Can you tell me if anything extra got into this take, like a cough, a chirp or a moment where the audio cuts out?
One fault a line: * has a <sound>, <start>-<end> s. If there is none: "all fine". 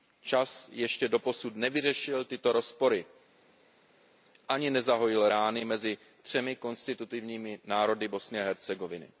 all fine